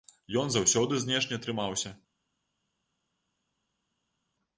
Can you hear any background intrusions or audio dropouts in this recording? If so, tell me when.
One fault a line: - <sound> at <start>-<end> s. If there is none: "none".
none